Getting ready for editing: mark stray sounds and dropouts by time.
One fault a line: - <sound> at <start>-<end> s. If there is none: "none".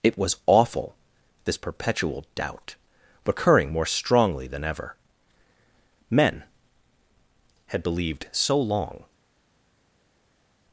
none